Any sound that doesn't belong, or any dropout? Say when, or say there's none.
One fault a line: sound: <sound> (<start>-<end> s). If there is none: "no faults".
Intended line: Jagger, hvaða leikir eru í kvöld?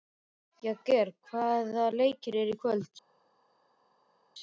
no faults